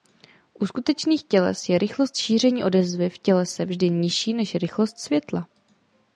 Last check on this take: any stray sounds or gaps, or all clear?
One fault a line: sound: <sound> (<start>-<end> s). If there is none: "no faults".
no faults